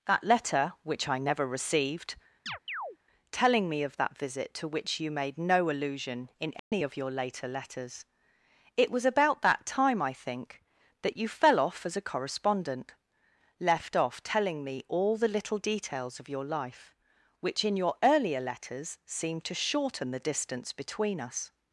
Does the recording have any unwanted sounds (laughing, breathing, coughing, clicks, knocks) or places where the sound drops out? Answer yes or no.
yes